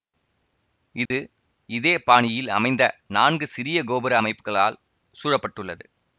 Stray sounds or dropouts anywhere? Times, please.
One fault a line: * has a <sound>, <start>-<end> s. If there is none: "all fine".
* has a dropout, 1.1-1.1 s